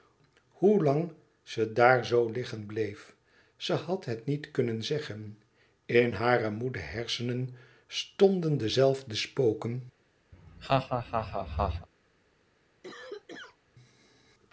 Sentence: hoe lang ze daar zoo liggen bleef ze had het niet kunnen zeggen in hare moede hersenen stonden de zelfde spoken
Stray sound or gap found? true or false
true